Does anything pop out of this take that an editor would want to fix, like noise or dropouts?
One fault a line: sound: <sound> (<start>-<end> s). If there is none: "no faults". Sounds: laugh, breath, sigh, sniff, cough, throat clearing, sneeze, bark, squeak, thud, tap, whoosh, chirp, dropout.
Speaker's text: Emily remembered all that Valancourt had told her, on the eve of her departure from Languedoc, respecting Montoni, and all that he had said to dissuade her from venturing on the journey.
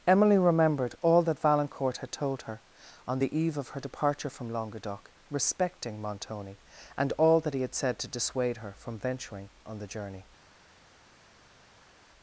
no faults